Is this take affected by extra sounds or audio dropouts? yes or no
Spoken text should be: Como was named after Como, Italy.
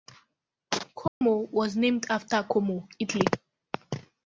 yes